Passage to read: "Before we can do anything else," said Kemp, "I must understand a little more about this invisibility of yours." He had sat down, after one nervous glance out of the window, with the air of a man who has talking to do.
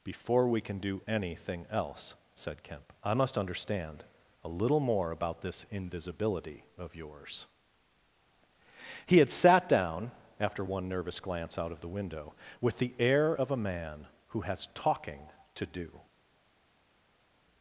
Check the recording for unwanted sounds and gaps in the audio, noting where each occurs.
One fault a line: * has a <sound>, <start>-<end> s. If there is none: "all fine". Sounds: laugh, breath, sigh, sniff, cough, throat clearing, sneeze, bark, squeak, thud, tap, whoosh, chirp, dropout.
all fine